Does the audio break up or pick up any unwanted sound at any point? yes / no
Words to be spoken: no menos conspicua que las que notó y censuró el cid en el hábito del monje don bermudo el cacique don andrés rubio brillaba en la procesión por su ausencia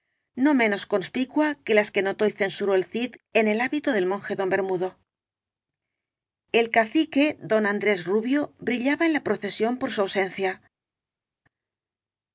no